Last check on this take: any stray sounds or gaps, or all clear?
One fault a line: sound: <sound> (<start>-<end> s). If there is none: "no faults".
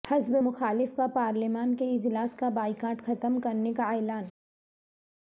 no faults